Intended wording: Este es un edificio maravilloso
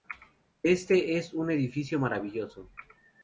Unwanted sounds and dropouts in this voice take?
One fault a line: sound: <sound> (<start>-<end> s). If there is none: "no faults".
no faults